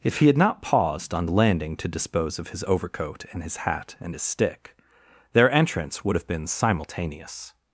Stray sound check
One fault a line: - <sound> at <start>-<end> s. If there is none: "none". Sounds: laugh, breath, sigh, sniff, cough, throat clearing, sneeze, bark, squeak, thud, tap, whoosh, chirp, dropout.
none